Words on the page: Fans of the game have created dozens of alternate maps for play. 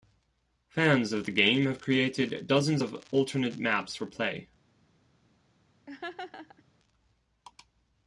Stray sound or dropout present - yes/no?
yes